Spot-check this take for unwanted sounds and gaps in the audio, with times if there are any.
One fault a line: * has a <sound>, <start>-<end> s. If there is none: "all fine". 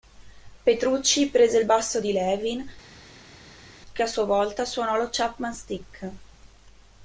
all fine